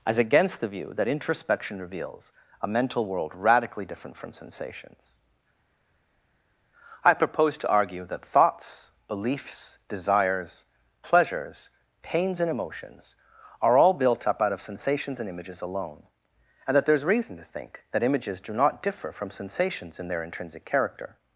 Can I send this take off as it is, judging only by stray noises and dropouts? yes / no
yes